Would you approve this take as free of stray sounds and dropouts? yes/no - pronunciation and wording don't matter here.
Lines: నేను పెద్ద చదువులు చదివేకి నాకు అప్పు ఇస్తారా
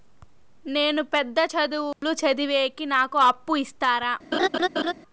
no